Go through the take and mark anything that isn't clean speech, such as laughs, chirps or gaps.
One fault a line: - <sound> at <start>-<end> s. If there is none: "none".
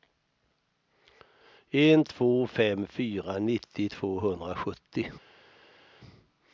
none